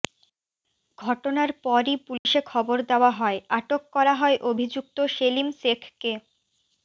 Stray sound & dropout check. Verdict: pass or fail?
fail